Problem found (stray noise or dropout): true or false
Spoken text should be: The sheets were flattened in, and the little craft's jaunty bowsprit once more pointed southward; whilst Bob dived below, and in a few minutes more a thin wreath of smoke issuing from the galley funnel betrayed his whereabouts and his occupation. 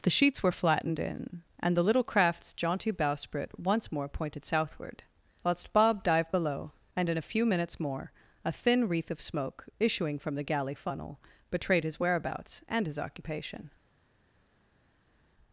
false